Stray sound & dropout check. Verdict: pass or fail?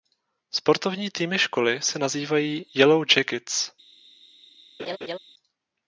fail